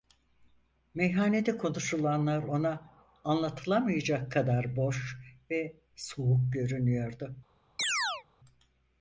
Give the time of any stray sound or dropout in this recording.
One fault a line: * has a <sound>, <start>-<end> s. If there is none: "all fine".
* has a chirp, 7.8-8.2 s